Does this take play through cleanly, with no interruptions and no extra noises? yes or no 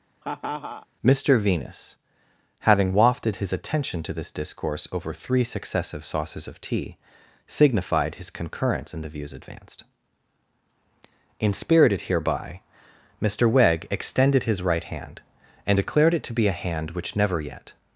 no